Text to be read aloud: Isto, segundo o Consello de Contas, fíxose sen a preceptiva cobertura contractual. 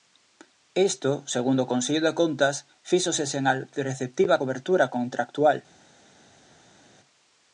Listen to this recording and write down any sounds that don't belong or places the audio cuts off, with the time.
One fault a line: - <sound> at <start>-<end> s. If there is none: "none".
none